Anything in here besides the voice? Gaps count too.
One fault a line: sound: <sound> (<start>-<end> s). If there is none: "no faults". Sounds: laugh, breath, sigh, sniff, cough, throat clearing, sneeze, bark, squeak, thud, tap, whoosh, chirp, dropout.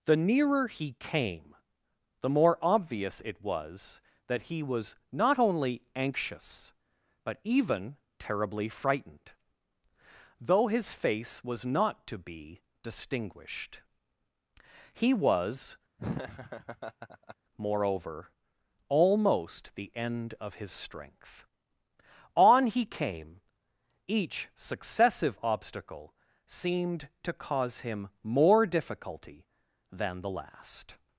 sound: laugh (16.0-17.4 s)